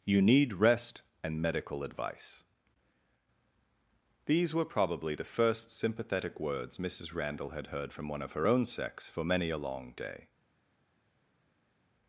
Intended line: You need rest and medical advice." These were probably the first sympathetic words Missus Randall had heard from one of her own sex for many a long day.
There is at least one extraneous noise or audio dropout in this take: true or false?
false